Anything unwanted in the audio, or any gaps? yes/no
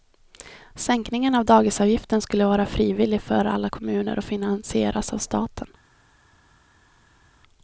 no